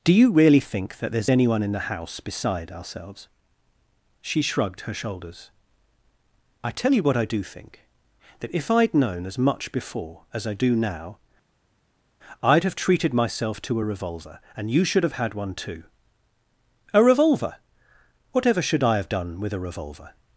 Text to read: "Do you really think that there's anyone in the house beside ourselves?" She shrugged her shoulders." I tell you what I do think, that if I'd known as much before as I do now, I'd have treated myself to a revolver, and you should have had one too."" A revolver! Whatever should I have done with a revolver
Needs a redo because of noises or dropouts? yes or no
no